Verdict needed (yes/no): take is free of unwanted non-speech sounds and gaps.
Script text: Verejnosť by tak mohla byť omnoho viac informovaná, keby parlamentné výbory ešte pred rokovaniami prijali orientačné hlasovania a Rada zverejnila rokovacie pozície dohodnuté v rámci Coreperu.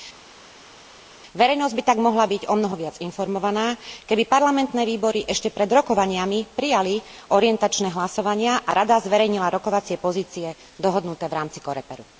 yes